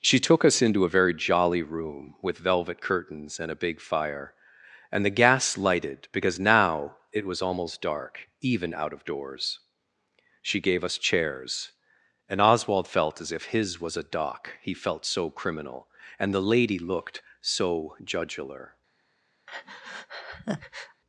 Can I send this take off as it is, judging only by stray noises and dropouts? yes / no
no